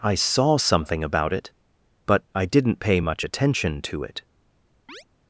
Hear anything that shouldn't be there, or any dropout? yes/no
yes